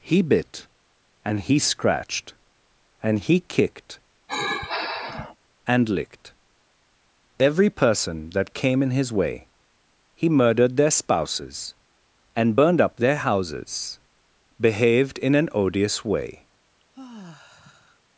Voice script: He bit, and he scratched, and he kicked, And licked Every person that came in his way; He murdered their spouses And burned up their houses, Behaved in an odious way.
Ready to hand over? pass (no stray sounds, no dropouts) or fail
fail